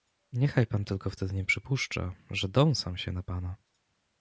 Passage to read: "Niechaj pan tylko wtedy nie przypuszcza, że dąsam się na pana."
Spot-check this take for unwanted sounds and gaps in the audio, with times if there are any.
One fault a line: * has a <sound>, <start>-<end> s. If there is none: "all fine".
all fine